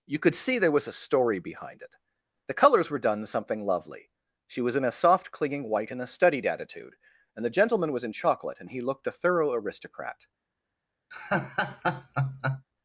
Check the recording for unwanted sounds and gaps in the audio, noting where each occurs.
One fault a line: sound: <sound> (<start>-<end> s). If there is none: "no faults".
sound: laugh (11.1-12.7 s)